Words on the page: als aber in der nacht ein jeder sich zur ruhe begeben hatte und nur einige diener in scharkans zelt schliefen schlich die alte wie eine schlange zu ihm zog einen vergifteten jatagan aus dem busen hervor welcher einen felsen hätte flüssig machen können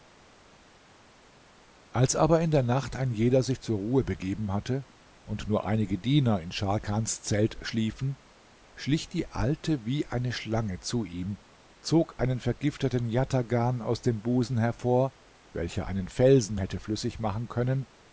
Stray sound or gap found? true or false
false